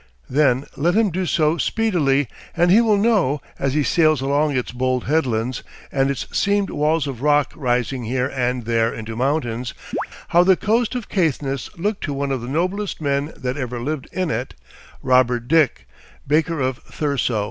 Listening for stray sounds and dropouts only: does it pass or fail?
fail